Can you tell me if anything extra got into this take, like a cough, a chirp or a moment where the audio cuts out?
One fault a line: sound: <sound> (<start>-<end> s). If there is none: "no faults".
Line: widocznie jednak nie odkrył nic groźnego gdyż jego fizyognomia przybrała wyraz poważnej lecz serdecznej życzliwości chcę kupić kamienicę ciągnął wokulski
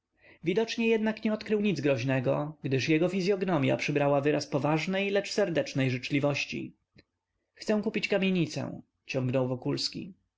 no faults